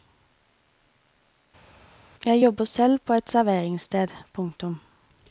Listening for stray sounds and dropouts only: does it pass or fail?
pass